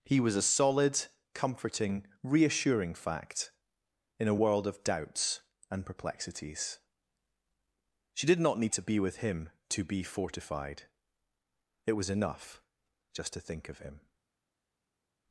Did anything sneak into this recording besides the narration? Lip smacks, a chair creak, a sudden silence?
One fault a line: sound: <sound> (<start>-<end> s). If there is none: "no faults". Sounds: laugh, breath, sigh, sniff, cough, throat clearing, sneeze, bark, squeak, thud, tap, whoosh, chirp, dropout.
no faults